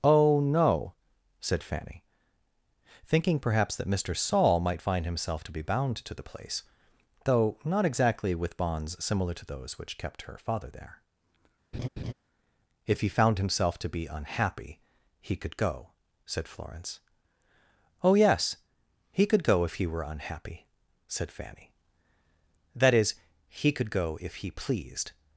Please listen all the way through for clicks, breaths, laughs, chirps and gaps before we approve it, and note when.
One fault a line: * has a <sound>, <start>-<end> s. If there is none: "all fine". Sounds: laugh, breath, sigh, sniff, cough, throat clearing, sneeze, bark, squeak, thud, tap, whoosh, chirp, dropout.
* has a laugh, 11.7-12.1 s